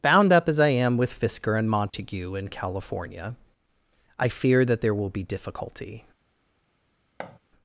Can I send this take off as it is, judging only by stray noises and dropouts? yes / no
no